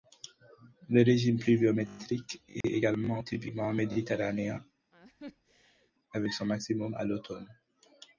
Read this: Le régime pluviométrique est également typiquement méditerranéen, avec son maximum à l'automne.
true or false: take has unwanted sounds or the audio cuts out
true